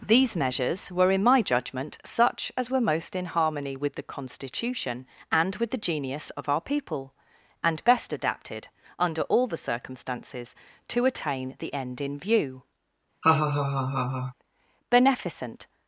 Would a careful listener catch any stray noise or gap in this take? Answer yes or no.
yes